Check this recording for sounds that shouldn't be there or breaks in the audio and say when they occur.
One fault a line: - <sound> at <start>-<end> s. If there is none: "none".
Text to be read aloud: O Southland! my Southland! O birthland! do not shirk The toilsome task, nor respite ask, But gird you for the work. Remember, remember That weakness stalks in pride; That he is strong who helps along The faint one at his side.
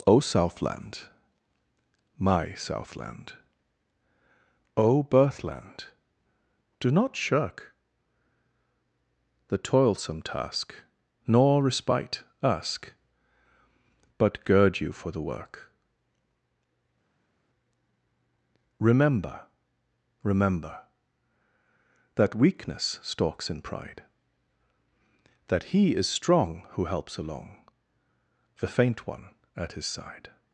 none